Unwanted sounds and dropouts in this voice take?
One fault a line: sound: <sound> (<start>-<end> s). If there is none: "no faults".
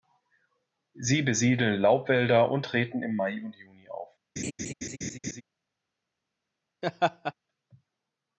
sound: laugh (4.4-5.4 s)
sound: laugh (6.8-7.3 s)